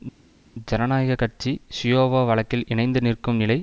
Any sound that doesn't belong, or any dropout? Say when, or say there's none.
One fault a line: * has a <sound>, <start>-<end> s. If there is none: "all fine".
all fine